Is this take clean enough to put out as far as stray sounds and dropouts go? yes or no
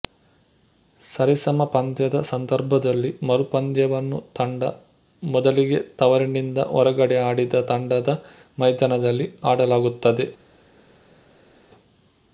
yes